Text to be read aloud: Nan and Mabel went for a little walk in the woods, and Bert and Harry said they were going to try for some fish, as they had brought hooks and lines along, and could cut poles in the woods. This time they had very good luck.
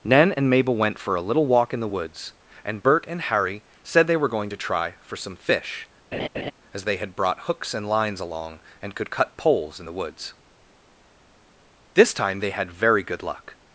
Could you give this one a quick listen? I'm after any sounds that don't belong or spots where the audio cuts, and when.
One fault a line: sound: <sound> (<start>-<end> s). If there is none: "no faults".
sound: laugh (6.1-6.5 s)